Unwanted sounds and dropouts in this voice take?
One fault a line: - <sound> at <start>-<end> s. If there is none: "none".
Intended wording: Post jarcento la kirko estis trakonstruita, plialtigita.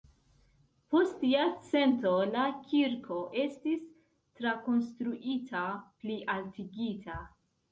none